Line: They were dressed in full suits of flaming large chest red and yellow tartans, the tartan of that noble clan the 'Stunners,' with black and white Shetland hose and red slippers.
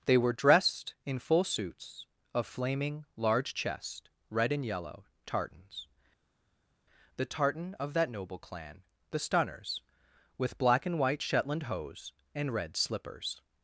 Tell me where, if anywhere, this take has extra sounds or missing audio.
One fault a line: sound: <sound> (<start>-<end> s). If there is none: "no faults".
no faults